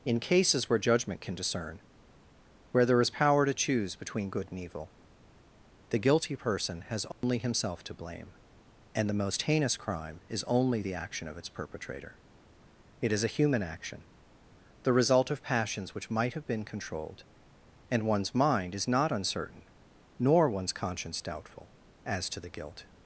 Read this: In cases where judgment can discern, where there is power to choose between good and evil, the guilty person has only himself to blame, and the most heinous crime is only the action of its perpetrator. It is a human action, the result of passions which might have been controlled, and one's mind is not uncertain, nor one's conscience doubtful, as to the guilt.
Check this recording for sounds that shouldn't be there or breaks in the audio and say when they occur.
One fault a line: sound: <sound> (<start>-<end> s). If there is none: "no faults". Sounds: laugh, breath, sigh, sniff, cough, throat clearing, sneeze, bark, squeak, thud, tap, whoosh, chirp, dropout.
sound: dropout (7.1-7.2 s)